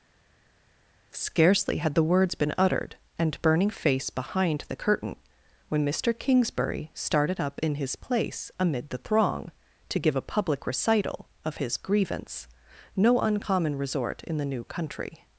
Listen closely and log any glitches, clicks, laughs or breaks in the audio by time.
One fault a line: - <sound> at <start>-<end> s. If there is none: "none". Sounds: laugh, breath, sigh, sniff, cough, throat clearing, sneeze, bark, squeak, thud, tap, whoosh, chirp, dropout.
none